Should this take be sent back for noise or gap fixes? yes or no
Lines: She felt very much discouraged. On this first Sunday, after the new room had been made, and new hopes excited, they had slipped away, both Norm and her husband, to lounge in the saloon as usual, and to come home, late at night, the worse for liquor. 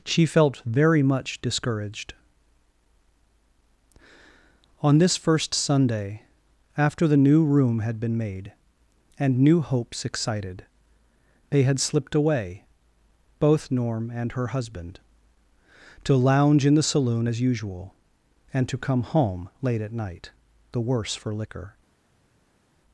no